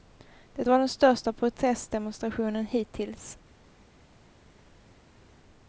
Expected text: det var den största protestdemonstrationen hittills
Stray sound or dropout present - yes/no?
no